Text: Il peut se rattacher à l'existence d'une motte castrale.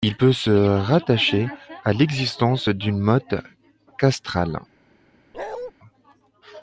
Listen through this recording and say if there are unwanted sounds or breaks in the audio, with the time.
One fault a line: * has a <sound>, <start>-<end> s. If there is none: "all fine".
* has a bark, 5.3-5.7 s